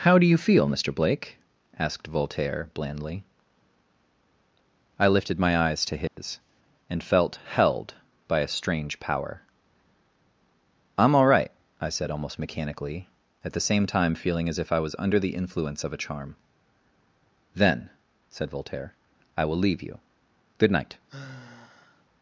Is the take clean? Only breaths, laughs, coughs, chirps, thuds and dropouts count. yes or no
no